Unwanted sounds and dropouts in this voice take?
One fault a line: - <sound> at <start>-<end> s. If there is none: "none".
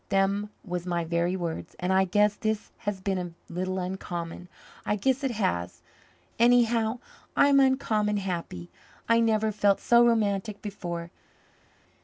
none